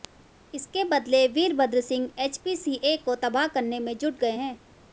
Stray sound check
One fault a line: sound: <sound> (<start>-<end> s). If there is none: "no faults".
no faults